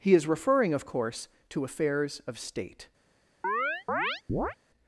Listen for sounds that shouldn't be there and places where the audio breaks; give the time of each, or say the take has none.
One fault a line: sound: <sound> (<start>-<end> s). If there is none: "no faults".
sound: chirp (3.4-4.6 s)